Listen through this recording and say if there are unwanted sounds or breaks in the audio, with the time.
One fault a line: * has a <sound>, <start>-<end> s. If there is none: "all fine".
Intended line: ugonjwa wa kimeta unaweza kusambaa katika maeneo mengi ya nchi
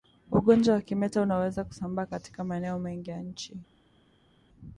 all fine